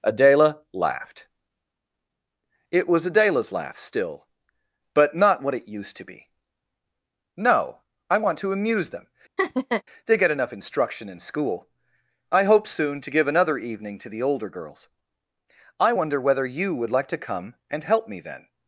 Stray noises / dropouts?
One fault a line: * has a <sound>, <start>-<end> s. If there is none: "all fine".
* has a laugh, 9.4-9.8 s